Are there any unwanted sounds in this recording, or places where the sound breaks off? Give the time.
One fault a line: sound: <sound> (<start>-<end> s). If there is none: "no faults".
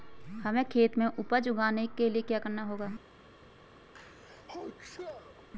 sound: sneeze (3.9-5.5 s)